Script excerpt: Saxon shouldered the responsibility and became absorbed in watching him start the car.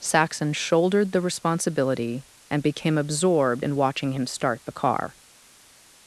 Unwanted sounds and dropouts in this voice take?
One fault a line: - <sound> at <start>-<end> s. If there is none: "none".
none